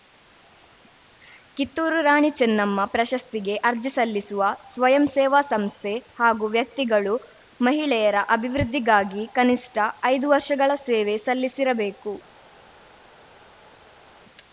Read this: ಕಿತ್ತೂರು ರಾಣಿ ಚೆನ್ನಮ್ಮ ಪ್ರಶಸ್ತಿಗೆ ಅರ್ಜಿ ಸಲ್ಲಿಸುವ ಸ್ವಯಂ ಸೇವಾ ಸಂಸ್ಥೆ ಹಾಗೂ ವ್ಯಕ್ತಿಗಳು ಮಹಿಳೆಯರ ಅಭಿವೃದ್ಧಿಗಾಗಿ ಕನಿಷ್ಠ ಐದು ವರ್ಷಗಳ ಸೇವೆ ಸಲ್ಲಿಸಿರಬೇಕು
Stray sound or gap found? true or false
false